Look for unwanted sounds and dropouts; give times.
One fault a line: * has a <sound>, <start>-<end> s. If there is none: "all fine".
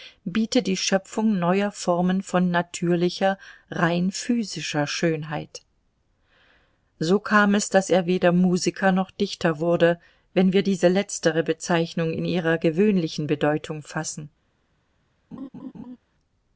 * has a laugh, 15.3-16.0 s